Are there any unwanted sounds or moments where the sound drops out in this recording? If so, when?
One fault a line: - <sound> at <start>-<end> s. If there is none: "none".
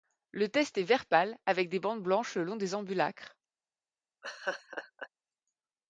- laugh at 4.2-5.1 s